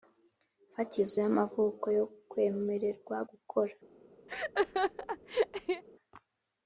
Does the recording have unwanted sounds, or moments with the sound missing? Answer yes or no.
yes